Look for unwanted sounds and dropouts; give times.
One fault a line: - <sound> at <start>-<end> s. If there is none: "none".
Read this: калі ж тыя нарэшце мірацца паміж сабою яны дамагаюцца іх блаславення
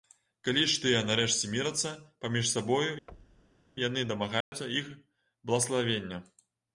- thud at 3.1-3.6 s
- dropout at 4.4-4.5 s